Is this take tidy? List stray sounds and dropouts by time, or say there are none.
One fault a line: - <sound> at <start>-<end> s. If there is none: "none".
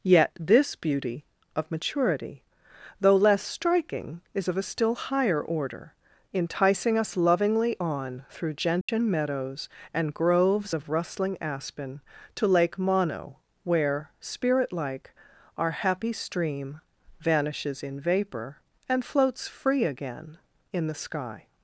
- dropout at 8.8-8.9 s